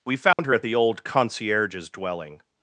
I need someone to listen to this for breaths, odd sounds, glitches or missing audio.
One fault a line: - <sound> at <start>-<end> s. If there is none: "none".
- dropout at 0.3-0.4 s